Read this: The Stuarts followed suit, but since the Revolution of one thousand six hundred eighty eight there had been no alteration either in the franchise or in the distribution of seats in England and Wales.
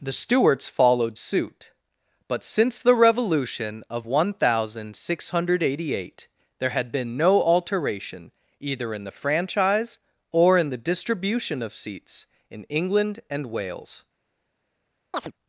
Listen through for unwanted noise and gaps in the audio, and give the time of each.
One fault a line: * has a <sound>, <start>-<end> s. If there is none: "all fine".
* has a chirp, 15.1-15.3 s